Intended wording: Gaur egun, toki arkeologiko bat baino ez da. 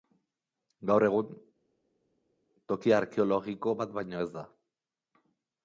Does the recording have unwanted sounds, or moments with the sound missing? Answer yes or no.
no